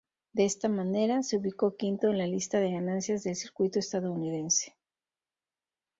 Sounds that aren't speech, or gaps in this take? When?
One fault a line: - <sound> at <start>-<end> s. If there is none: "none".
none